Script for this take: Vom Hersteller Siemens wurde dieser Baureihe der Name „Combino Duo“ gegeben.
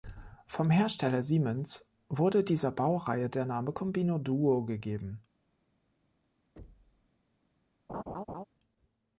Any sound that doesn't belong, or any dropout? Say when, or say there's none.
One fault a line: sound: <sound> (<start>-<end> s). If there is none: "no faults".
sound: thud (6.6-7.1 s)
sound: laugh (7.9-8.4 s)